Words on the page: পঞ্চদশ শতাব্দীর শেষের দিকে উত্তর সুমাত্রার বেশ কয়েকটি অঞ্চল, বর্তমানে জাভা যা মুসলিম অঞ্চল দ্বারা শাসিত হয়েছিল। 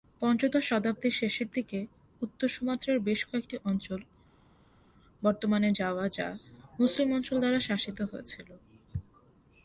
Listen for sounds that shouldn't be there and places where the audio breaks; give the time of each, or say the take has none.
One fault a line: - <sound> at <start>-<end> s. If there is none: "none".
none